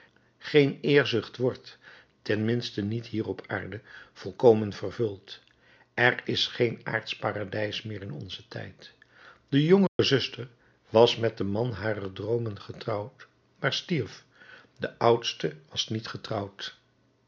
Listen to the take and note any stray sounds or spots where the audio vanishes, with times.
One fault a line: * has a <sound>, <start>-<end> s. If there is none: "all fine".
* has a dropout, 9.9-10.0 s